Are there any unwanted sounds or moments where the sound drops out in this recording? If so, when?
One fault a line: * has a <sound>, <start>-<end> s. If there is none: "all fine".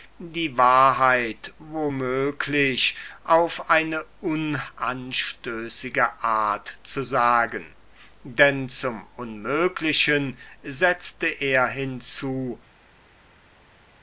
all fine